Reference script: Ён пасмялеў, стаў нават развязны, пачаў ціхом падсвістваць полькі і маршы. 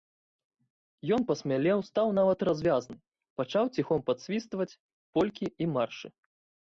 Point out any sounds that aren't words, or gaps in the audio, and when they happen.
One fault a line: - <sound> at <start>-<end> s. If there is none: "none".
none